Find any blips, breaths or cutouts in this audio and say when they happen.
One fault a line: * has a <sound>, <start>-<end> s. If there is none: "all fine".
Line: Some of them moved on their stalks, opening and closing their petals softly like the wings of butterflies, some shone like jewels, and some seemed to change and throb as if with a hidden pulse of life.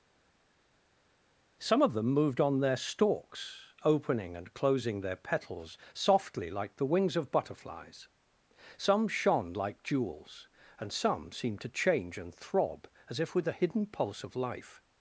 all fine